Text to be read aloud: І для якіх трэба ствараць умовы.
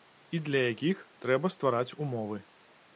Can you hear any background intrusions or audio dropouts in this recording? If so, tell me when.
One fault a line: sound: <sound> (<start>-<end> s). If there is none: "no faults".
no faults